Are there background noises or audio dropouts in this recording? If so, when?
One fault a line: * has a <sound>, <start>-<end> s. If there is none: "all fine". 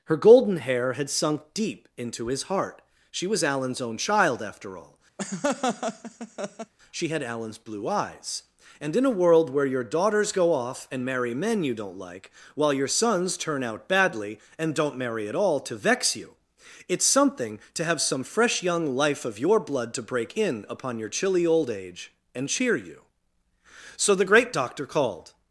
* has a laugh, 5.2-6.7 s